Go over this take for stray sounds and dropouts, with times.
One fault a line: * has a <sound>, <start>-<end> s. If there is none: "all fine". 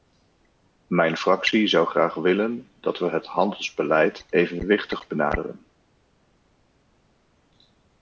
all fine